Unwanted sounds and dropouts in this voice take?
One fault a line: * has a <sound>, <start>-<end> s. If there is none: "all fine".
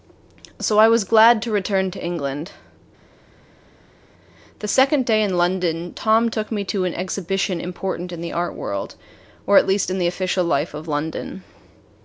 all fine